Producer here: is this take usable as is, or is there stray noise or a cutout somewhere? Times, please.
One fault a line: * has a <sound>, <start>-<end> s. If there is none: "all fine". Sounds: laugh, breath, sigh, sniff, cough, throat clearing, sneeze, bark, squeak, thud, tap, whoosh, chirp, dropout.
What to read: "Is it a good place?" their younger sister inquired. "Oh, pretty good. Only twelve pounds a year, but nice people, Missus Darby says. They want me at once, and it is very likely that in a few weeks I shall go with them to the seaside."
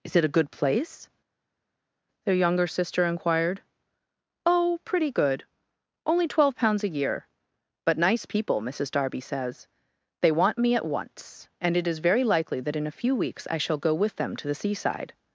all fine